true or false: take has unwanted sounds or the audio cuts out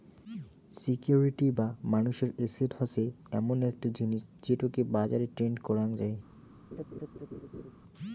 true